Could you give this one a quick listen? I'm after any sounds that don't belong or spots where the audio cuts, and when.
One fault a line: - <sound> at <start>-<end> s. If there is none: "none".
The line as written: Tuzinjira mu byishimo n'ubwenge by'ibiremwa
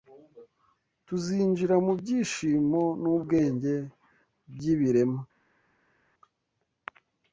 none